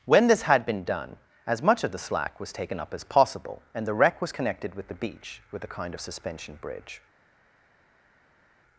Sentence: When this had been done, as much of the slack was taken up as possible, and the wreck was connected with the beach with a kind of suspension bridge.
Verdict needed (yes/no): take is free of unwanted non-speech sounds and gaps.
yes